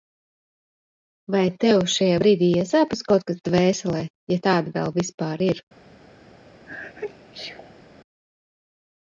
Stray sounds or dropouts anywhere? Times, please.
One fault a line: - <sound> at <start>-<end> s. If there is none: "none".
- sneeze at 6.6-7.8 s